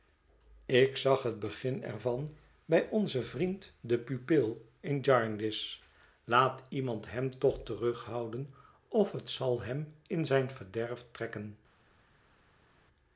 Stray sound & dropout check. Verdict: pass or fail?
pass